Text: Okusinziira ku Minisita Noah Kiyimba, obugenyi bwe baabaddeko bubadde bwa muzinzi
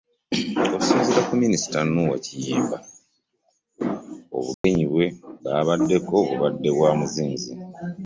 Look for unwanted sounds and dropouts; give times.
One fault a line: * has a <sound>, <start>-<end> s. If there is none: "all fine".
* has a dropout, 4.5-4.6 s